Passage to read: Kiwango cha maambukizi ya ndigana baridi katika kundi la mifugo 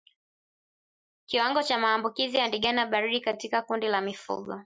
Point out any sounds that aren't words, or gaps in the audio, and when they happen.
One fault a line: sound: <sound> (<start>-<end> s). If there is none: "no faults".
no faults